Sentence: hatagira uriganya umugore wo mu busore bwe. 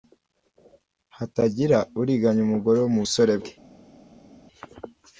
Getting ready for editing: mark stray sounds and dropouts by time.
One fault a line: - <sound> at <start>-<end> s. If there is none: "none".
none